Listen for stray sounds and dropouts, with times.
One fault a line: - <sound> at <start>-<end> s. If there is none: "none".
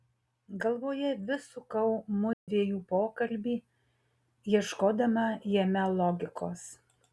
- dropout at 2.3-2.5 s